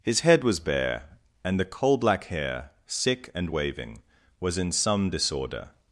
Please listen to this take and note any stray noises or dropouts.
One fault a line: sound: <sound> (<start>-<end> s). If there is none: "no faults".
no faults